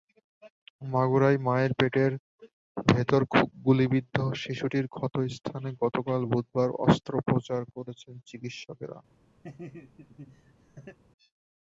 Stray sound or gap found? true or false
true